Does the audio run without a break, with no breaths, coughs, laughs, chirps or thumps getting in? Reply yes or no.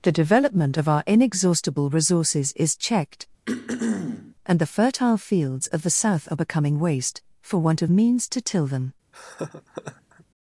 no